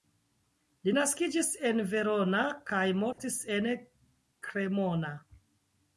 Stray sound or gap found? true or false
true